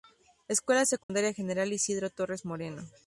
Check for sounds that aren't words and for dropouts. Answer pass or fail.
fail